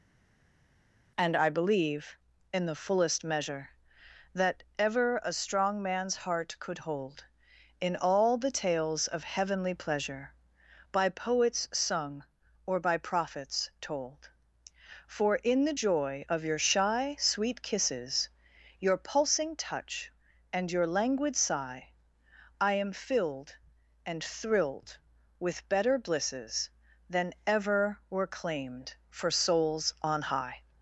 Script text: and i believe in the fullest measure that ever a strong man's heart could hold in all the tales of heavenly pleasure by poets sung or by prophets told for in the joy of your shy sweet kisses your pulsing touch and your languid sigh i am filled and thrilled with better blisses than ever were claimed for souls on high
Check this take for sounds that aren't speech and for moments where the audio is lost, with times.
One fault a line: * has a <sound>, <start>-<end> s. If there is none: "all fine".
all fine